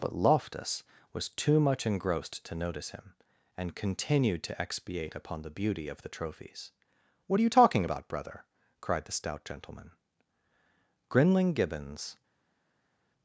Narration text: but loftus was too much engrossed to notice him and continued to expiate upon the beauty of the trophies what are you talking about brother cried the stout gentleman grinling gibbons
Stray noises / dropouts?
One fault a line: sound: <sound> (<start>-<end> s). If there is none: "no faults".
no faults